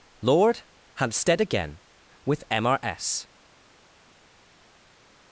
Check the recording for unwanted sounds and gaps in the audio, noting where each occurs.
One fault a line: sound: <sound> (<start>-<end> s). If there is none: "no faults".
no faults